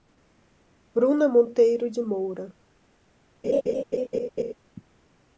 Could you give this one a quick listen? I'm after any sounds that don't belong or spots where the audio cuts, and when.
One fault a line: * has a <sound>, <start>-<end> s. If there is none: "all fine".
* has a laugh, 3.4-4.5 s